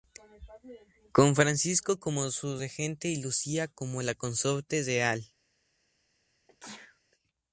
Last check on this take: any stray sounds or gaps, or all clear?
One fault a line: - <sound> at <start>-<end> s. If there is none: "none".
- sneeze at 6.5-7.0 s